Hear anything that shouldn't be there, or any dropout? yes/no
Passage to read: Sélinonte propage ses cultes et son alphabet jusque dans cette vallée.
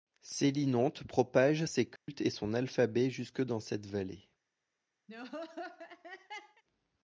yes